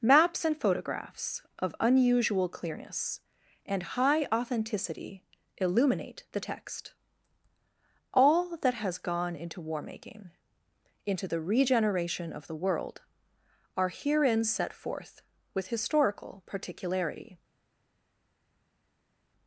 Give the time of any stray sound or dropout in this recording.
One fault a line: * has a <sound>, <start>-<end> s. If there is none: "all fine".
all fine